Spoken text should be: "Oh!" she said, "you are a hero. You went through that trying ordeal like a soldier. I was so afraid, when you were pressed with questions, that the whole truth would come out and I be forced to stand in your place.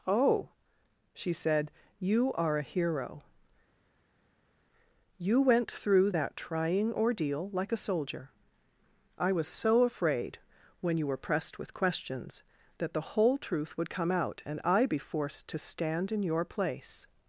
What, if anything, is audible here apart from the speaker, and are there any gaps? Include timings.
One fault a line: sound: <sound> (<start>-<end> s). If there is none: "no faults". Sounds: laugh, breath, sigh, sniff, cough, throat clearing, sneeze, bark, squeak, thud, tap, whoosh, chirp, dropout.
no faults